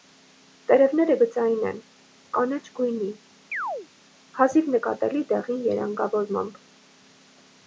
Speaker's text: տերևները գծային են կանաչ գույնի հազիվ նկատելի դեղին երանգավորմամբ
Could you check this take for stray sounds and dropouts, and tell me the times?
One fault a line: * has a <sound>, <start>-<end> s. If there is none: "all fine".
* has a chirp, 3.5-3.9 s